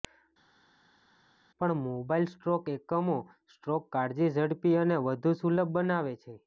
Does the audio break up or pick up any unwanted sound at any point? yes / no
no